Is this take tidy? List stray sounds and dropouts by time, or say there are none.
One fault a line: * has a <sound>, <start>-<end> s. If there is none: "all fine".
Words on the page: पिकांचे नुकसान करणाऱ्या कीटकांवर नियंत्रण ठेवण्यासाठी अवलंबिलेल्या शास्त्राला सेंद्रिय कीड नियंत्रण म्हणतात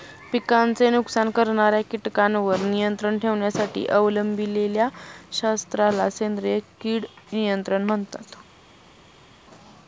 all fine